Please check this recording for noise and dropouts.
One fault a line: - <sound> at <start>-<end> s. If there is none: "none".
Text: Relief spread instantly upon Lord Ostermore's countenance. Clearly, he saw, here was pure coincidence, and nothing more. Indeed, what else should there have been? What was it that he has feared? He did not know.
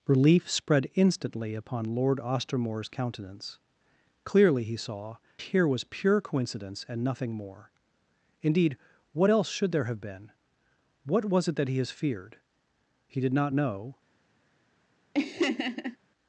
- laugh at 15.1-16.0 s